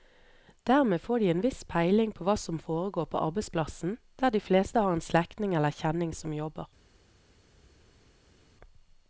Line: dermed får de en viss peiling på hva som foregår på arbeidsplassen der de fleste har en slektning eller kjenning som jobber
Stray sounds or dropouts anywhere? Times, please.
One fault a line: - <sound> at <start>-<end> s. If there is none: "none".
none